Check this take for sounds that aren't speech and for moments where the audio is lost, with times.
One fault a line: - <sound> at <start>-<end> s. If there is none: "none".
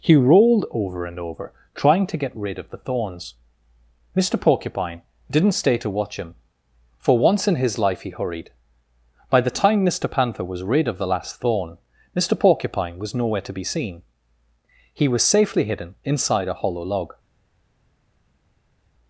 none